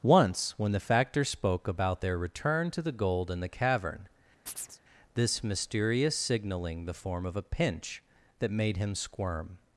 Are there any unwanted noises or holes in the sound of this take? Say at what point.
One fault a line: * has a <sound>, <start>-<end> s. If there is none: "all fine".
* has a chirp, 4.5-4.8 s